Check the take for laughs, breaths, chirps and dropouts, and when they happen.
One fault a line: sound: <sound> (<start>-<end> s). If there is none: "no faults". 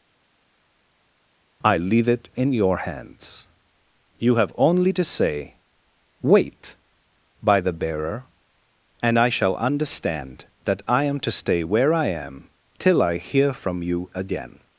no faults